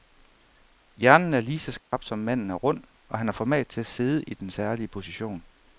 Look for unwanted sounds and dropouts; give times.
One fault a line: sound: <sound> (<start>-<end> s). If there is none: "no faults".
sound: dropout (1.8-1.9 s)